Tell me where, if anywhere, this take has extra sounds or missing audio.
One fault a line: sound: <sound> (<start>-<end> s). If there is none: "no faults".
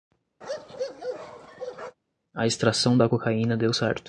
sound: bark (0.4-2.0 s)